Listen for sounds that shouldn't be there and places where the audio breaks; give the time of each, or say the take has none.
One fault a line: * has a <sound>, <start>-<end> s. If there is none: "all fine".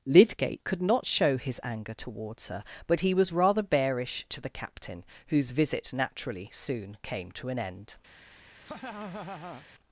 * has a laugh, 8.6-9.7 s